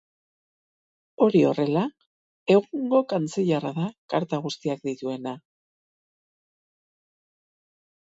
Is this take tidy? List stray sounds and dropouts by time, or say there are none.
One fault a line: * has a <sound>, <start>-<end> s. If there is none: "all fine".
all fine